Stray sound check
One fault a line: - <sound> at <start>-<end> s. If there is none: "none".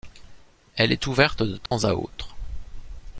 - dropout at 1.7-1.7 s